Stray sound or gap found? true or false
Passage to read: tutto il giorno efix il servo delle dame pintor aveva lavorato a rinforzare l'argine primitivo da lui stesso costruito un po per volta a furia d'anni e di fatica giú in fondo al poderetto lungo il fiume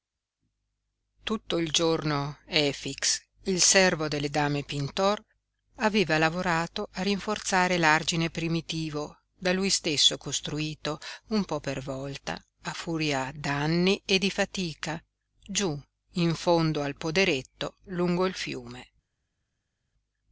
false